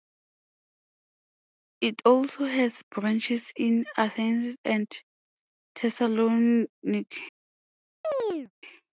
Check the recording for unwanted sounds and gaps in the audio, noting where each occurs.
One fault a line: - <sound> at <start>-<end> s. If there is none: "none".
- chirp at 8.0-8.5 s